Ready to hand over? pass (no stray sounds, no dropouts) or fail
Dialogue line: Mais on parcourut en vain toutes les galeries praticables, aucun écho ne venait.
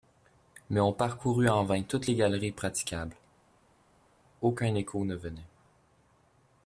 pass